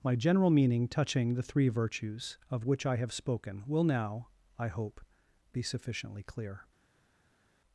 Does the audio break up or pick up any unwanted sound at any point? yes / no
no